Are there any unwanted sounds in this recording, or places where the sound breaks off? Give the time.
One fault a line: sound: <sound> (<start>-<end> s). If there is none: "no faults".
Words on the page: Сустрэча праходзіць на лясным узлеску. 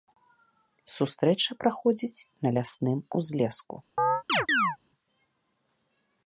sound: chirp (4.0-4.8 s)